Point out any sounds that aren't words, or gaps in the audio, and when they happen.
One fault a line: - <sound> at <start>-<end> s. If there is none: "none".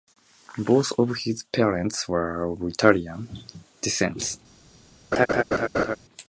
- laugh at 5.1-6.0 s